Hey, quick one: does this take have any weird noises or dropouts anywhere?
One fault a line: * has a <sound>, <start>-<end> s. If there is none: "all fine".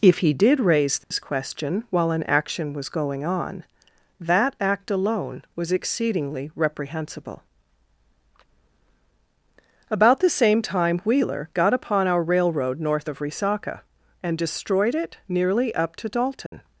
* has a dropout, 1.0-1.1 s
* has a dropout, 16.5-16.5 s